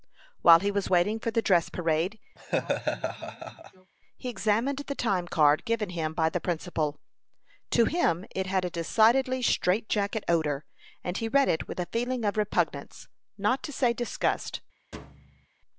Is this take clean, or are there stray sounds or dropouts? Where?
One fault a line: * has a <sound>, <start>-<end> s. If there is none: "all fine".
* has a laugh, 2.4-3.9 s
* has a thud, 14.9-15.5 s